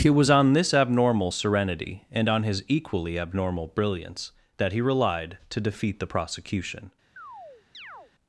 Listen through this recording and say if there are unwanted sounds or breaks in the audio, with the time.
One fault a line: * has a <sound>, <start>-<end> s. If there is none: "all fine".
* has a chirp, 7.2-8.1 s